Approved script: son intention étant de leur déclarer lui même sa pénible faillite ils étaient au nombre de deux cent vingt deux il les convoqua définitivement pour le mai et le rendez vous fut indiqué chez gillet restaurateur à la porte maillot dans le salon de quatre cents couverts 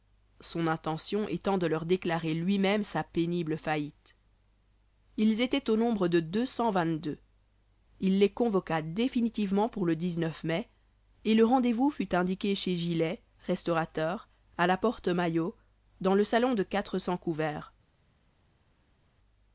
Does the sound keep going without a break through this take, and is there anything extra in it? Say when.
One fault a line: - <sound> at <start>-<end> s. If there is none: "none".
none